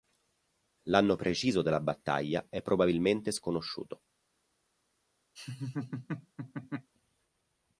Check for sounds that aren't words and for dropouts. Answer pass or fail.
fail